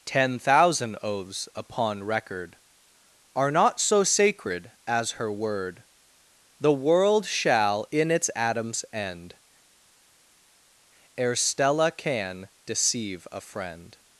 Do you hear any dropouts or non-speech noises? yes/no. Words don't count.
no